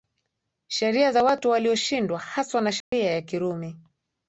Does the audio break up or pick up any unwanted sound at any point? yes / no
yes